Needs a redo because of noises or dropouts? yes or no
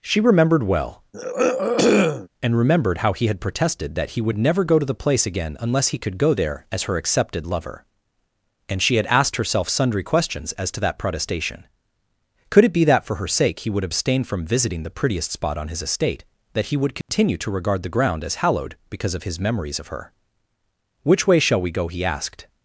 yes